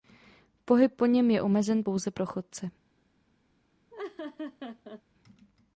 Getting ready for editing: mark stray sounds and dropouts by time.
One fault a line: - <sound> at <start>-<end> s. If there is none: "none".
- laugh at 3.9-5.0 s